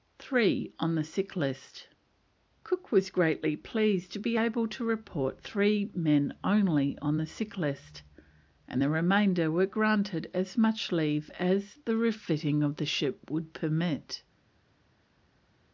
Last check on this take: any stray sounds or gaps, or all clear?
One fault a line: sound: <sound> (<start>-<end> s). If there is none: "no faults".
no faults